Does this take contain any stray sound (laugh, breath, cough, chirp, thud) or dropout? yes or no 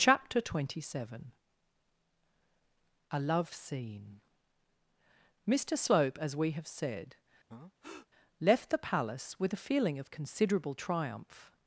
yes